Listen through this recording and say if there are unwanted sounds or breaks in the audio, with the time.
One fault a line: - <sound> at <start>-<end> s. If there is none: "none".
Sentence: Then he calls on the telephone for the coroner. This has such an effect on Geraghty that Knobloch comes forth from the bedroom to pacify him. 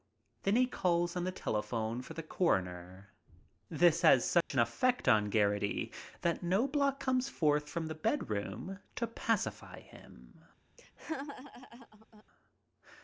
- dropout at 4.4-4.5 s
- laugh at 10.8-12.2 s